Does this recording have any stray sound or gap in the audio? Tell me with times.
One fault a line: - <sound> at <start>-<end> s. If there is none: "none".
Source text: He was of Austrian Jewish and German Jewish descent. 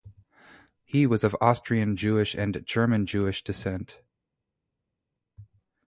none